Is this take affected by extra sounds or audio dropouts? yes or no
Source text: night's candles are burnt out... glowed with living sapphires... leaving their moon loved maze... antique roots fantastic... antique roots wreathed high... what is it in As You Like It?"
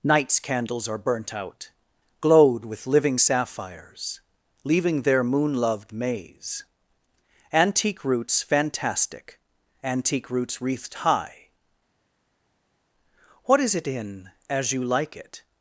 no